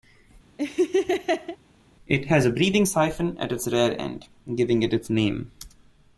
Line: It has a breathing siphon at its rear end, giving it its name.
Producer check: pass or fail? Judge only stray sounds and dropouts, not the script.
fail